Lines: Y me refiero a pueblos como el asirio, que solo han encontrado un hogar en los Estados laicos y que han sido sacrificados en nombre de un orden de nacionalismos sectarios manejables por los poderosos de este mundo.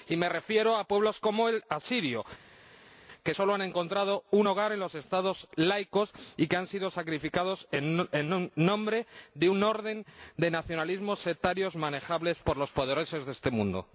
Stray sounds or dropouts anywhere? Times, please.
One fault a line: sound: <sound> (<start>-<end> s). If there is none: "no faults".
no faults